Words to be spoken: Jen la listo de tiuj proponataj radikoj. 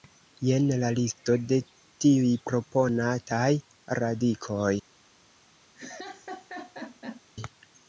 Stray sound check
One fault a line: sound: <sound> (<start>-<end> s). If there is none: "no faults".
sound: laugh (5.7-7.2 s)